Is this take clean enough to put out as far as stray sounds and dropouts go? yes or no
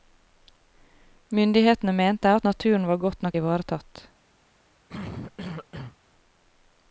no